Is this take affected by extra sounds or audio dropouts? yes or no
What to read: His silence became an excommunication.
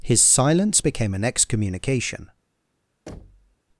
yes